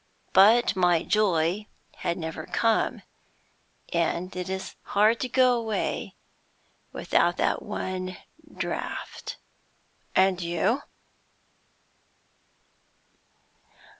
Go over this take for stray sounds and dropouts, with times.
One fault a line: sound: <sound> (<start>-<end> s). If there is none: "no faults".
no faults